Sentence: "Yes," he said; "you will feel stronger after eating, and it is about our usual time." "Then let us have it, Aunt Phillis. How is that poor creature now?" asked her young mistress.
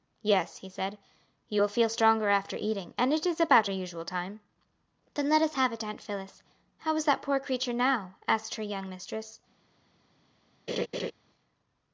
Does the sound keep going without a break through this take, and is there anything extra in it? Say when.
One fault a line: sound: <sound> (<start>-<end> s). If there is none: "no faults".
sound: laugh (10.7-11.1 s)